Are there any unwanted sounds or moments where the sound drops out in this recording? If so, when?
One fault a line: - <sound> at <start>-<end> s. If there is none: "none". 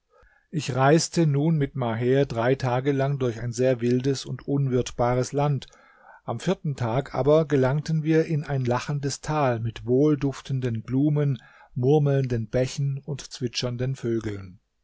none